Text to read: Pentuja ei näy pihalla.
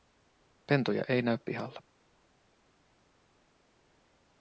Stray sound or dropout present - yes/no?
no